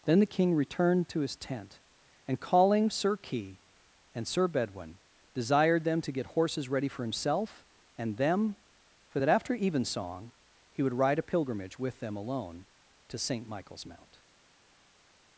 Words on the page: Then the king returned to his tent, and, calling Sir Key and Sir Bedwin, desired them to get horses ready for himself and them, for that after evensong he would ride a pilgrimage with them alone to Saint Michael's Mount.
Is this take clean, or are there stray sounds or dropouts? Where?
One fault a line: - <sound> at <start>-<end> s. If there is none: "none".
none